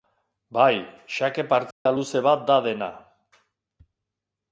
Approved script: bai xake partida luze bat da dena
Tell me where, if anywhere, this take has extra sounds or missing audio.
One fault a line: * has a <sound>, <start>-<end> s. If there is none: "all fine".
* has a dropout, 1.7-1.9 s